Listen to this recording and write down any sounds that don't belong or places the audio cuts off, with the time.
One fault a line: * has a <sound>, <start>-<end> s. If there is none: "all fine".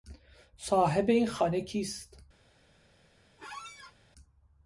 * has a squeak, 3.4-3.9 s